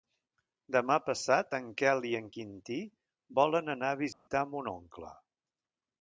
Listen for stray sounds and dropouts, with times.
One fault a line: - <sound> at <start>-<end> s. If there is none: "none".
- dropout at 4.1-4.3 s